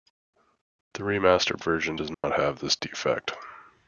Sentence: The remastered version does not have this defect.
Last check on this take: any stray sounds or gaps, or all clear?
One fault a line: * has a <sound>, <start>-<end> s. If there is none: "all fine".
* has a dropout, 2.1-2.2 s